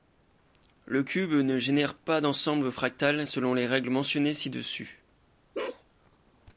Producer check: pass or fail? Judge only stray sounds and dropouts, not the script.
fail